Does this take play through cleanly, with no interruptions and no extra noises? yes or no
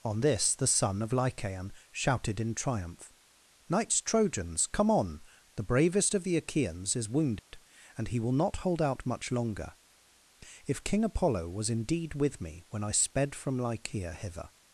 no